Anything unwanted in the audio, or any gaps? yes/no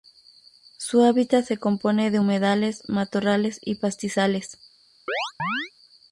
yes